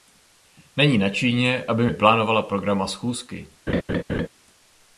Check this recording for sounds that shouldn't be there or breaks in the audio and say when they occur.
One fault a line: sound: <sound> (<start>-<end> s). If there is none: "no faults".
sound: laugh (3.7-4.3 s)